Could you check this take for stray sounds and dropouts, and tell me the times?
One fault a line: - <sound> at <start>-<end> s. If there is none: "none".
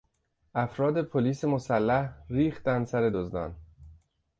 none